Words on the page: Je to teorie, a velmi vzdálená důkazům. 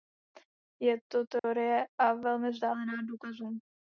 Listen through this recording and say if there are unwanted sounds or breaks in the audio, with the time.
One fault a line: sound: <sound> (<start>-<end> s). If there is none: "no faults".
sound: dropout (1.4-1.4 s)